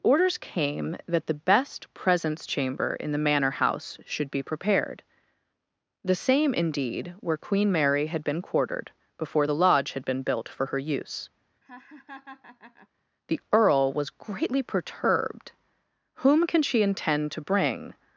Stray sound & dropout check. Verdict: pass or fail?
fail